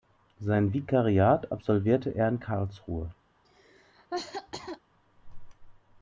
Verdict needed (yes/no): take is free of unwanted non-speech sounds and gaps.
no